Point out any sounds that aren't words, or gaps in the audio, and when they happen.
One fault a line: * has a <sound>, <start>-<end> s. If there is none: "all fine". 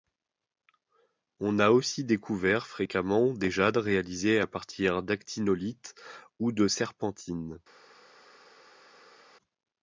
all fine